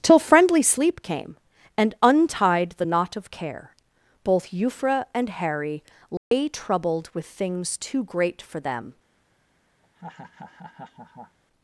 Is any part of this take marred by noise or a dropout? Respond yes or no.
yes